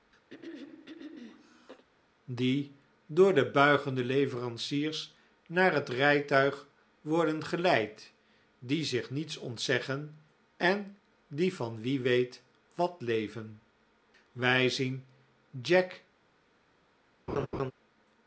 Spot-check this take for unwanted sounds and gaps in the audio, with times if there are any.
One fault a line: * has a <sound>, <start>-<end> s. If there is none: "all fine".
* has a throat clearing, 0.3-1.8 s
* has a laugh, 17.3-17.7 s